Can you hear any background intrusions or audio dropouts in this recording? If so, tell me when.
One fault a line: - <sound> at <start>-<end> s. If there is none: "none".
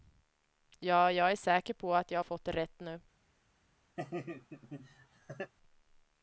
- laugh at 4.0-5.5 s